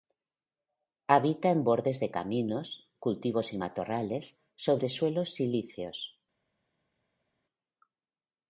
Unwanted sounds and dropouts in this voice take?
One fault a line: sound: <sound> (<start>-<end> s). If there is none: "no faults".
no faults